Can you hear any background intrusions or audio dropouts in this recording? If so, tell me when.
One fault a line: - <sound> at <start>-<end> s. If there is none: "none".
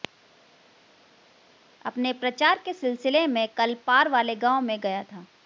none